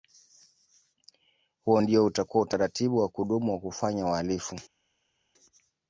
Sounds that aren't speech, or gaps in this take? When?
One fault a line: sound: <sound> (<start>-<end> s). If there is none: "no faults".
no faults